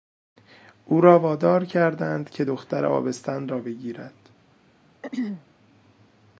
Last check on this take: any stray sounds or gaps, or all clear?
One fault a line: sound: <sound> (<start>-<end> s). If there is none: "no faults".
sound: throat clearing (5.0-5.5 s)